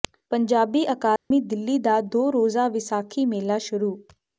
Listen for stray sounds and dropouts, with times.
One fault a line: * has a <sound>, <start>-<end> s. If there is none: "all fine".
* has a dropout, 1.2-1.3 s